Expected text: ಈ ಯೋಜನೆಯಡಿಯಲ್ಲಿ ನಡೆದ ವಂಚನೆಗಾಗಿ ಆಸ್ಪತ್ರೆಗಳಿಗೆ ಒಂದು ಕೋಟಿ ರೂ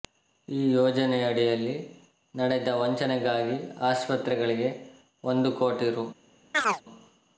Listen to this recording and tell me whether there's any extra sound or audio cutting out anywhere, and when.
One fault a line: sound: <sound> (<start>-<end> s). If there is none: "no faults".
sound: chirp (6.5-6.8 s)